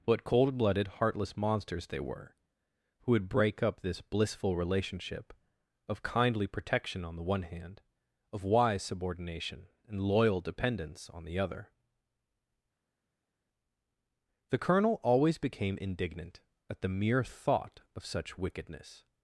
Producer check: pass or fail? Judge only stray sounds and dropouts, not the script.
pass